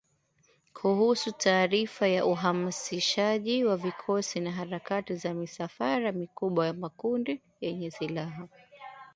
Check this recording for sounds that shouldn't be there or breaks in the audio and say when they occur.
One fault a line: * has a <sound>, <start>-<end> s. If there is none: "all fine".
all fine